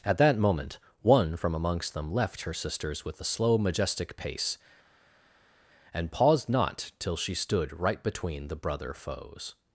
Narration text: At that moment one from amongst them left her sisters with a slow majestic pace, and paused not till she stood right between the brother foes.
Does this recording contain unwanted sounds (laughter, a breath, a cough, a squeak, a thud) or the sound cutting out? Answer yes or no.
no